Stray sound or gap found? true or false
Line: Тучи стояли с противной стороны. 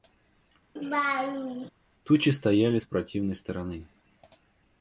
true